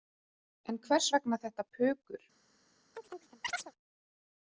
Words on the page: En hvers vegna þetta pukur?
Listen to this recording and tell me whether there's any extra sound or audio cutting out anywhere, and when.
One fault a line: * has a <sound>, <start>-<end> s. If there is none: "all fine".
* has a chirp, 2.9-3.7 s